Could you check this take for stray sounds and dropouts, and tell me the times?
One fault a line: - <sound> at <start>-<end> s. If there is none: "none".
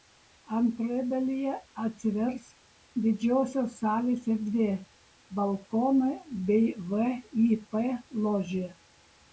none